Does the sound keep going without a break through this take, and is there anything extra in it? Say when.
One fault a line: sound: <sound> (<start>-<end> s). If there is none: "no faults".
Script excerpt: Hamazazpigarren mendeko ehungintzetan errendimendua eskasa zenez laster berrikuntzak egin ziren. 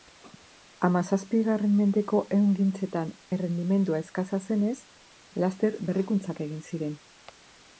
no faults